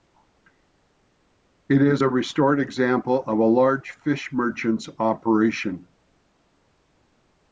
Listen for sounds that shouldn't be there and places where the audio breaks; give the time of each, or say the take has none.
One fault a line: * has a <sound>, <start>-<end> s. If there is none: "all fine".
all fine